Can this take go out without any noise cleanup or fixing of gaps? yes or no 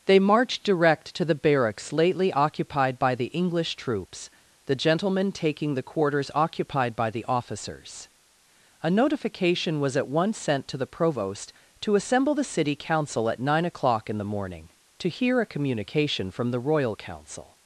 yes